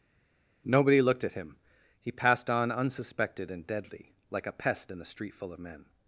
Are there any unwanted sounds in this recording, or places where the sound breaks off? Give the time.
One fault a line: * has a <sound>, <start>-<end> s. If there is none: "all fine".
all fine